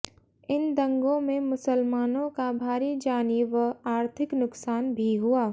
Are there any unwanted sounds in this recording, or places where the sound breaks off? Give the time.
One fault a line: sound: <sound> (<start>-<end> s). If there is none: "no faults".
no faults